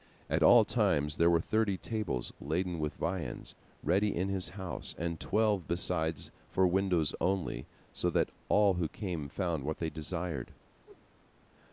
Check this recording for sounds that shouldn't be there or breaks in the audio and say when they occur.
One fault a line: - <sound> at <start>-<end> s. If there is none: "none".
- whoosh at 10.8-11.1 s